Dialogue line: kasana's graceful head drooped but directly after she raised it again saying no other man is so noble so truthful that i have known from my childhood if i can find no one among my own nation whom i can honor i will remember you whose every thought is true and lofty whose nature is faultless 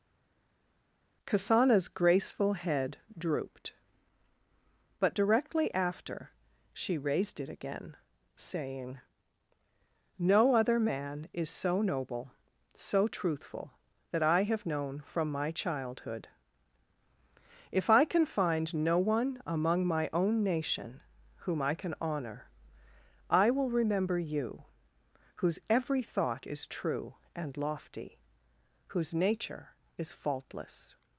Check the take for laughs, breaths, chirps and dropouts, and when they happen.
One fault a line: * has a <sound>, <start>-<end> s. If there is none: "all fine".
all fine